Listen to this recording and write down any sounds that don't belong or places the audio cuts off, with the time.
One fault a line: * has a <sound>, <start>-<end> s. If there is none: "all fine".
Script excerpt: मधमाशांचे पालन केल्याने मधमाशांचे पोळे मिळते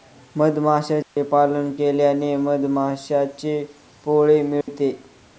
* has a dropout, 1.0-1.2 s
* has a dropout, 4.6-4.7 s